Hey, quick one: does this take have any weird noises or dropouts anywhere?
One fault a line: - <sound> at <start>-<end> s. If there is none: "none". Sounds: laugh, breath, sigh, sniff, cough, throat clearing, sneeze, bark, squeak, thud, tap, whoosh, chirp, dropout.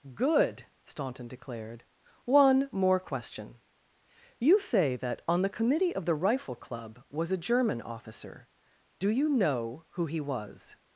none